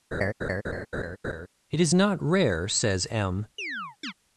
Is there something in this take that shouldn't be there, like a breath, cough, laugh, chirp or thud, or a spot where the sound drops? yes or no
yes